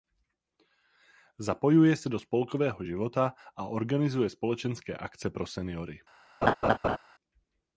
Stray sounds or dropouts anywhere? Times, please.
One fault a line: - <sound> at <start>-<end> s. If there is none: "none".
- laugh at 6.4-7.0 s